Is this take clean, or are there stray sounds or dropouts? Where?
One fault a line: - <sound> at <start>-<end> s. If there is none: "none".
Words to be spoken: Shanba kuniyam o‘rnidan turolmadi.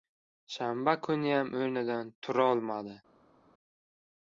none